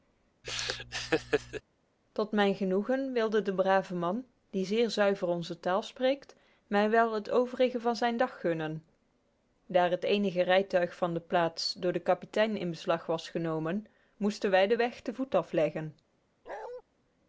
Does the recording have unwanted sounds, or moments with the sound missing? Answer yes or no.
yes